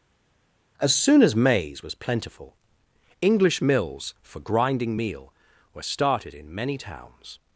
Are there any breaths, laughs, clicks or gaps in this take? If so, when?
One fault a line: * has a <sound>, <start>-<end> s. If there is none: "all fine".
all fine